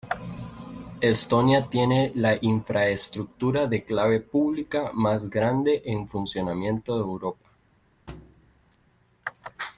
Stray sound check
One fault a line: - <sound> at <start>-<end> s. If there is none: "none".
- thud at 8.1-8.8 s